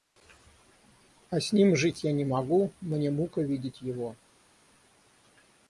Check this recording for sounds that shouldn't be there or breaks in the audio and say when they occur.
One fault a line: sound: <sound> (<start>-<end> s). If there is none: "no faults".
no faults